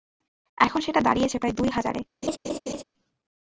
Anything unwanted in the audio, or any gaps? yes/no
yes